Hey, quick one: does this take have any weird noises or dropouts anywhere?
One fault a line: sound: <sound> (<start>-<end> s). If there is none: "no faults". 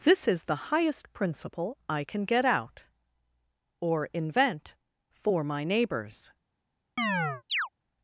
sound: chirp (7.0-7.7 s)